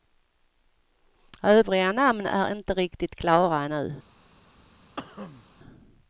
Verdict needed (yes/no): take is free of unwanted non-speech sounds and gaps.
no